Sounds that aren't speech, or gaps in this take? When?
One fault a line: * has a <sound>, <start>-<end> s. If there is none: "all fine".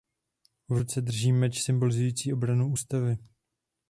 all fine